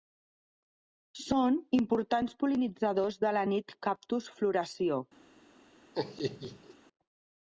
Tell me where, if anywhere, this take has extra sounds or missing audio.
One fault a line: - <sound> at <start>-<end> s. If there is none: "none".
- laugh at 5.9-6.7 s